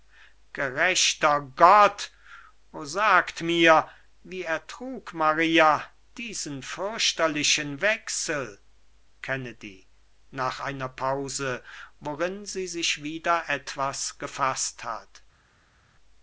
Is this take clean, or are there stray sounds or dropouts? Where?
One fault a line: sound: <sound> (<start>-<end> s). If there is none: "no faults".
no faults